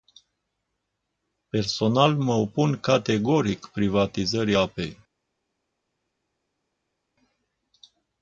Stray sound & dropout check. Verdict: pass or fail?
pass